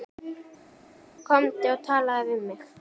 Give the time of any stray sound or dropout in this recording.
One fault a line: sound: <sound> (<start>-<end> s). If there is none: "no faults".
no faults